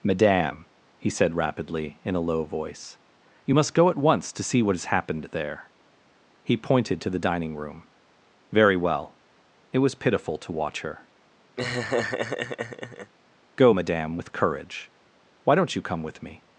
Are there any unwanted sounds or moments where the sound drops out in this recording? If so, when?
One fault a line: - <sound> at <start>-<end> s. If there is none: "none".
- laugh at 11.6-13.1 s